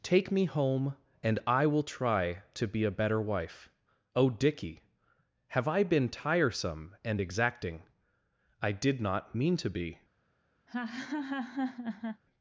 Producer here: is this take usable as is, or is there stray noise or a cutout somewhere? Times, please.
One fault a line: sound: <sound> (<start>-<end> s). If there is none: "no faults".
sound: laugh (10.7-12.2 s)